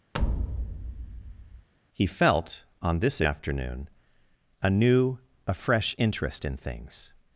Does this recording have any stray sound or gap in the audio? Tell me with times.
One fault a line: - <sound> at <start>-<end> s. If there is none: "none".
- thud at 0.1-1.7 s